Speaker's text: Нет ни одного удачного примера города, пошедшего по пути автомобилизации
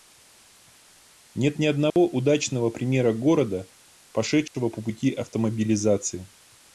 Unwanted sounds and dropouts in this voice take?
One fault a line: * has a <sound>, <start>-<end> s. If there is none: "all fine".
* has a dropout, 1.9-2.0 s
* has a dropout, 4.5-4.5 s